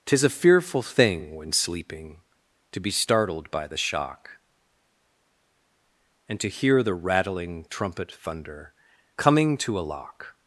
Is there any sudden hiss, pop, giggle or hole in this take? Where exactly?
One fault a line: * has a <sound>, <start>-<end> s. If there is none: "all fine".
all fine